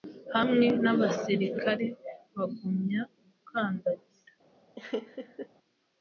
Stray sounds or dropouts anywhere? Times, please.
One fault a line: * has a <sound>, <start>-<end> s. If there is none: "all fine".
* has a laugh, 4.8-5.5 s